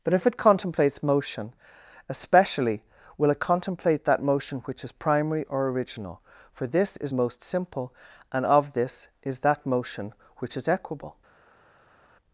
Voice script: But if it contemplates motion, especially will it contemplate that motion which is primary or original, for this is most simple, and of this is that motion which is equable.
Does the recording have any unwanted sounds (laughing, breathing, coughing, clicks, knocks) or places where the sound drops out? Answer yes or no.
no